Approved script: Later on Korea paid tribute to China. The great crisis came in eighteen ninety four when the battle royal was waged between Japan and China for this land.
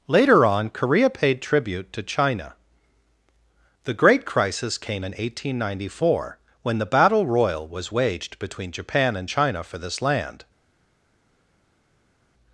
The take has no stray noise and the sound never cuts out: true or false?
true